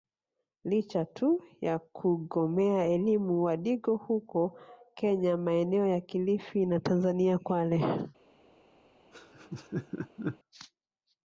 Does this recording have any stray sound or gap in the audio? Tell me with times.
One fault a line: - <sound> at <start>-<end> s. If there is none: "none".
- laugh at 9.1-10.4 s